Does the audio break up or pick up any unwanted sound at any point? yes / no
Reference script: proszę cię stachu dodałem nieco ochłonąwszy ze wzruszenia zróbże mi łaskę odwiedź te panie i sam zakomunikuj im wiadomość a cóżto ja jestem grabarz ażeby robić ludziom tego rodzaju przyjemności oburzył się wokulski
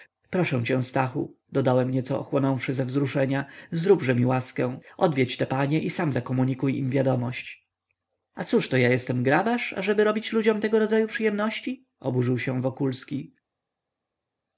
no